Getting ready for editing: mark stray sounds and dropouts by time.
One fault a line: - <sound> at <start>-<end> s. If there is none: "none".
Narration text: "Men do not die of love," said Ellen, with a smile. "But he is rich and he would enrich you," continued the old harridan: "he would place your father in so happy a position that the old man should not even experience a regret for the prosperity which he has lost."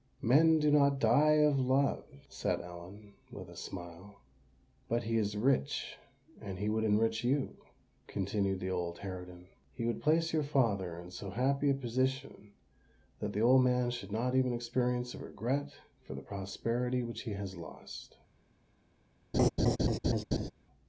- laugh at 19.3-20.5 s